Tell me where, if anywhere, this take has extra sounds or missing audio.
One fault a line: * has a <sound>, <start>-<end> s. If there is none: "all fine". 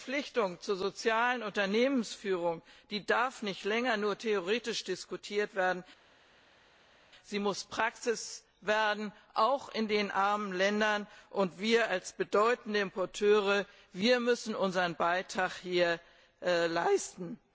all fine